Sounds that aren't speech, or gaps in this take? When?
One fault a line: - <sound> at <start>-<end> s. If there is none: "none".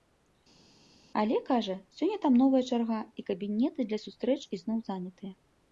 none